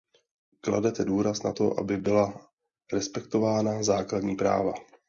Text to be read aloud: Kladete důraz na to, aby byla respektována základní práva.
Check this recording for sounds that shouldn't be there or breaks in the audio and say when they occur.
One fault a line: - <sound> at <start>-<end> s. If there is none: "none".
none